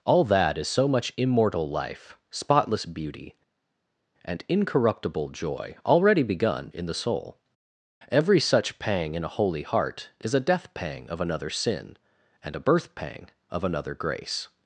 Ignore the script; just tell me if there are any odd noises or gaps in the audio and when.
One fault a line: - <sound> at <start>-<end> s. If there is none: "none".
none